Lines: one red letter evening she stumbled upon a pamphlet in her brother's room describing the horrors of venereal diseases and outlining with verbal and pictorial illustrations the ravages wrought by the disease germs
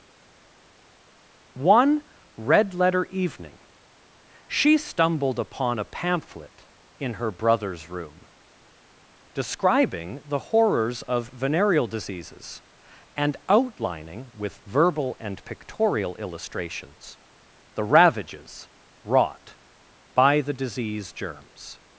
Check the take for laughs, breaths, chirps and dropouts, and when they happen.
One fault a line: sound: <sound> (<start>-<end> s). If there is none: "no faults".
no faults